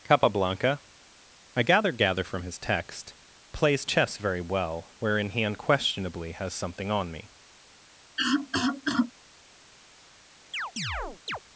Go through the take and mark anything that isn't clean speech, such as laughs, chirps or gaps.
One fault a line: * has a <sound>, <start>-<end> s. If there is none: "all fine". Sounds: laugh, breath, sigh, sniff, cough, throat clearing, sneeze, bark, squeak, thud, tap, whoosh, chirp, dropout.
* has a cough, 8.2-9.1 s
* has a chirp, 10.5-11.4 s